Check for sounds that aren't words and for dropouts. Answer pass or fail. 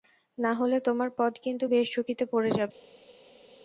pass